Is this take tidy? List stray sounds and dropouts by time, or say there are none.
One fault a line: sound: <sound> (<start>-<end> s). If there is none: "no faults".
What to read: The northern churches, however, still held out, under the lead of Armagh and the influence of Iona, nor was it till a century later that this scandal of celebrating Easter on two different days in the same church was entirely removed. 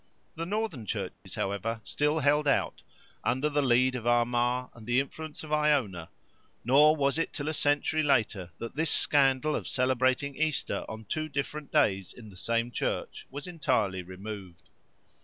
sound: dropout (1.1-1.3 s)